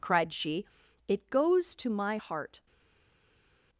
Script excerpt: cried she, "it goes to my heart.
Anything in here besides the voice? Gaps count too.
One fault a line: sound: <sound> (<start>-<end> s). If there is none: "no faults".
no faults